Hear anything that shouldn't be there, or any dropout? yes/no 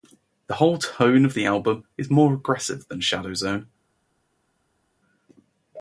no